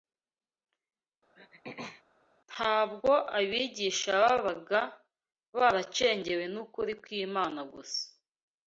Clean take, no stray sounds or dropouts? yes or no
no